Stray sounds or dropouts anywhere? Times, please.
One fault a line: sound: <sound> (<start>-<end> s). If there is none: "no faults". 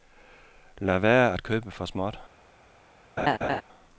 sound: laugh (3.2-3.6 s)